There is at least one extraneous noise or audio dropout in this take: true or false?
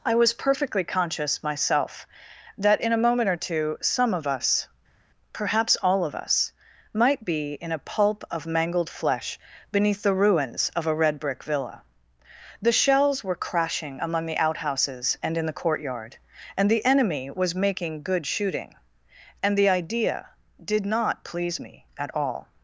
false